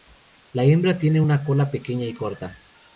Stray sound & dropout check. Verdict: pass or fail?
pass